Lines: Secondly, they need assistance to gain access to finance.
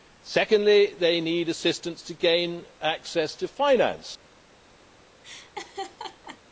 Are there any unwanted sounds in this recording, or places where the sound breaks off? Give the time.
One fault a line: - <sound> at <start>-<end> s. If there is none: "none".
- laugh at 5.2-6.4 s